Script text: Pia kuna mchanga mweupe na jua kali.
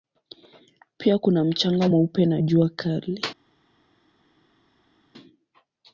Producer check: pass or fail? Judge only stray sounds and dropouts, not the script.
pass